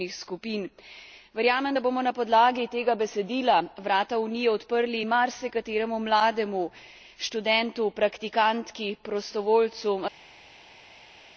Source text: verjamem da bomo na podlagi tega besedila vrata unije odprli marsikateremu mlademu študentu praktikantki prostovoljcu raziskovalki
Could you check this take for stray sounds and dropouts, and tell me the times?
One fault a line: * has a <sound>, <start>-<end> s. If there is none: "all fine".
all fine